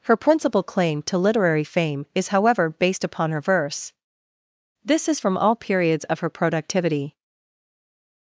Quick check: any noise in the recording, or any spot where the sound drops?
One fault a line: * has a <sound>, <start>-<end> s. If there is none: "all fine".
all fine